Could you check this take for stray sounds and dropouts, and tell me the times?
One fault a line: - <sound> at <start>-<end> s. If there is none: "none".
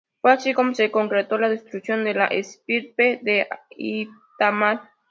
none